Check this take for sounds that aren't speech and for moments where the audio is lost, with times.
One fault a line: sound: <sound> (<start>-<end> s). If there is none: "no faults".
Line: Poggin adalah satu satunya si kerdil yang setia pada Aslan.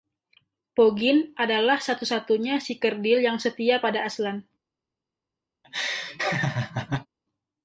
sound: laugh (5.6-7.1 s)